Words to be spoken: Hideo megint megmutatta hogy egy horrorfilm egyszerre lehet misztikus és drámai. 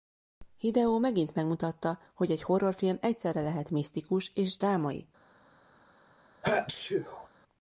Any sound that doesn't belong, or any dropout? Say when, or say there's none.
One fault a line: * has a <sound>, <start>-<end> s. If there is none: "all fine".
* has a sneeze, 6.4-7.3 s